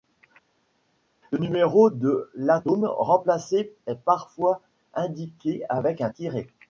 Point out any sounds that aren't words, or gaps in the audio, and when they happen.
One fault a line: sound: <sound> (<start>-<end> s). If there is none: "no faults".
no faults